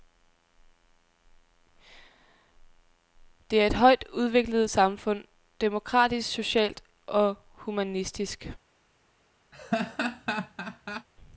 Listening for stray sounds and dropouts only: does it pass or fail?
fail